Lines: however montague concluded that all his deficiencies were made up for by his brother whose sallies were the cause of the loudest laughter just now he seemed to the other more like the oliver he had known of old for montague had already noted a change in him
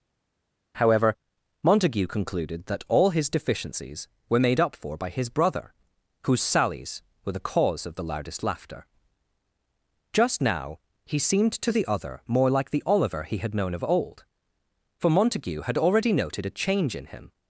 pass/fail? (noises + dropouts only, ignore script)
pass